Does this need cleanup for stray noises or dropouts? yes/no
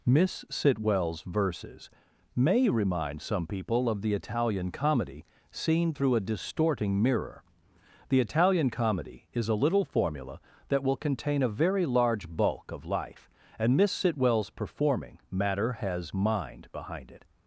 no